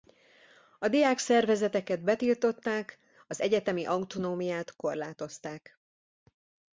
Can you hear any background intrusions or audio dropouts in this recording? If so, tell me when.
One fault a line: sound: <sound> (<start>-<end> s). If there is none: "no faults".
no faults